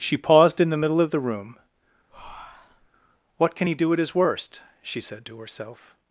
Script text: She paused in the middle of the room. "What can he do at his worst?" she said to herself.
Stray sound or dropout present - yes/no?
yes